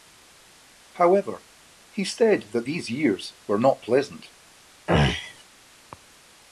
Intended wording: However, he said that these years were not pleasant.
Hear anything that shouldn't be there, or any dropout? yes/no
yes